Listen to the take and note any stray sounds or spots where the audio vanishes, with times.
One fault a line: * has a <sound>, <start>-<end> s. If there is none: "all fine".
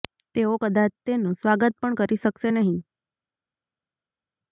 all fine